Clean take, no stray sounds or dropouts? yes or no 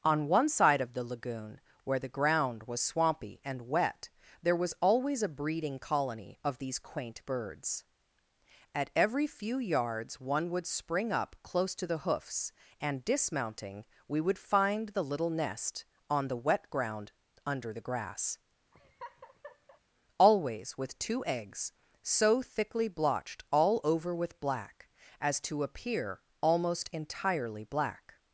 no